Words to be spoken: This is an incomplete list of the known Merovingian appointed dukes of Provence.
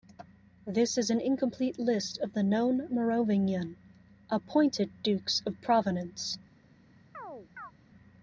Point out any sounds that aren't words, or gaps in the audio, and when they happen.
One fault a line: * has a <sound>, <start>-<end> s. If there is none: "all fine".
* has a chirp, 7.1-7.7 s